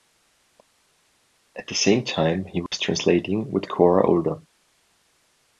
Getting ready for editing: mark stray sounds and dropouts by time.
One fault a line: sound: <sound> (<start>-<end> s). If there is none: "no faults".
sound: dropout (2.7-2.7 s)